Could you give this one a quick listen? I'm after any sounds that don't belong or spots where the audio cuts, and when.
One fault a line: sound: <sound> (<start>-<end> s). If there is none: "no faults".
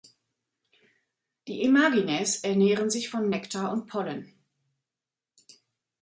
no faults